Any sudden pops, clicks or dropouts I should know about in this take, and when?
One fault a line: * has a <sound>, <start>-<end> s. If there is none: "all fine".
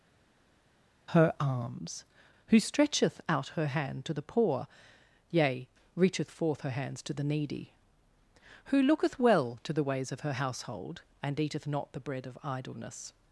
all fine